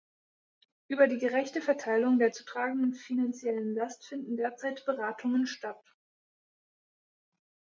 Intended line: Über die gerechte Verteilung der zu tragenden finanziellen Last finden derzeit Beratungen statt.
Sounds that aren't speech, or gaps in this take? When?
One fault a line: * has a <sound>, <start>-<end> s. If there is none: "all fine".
all fine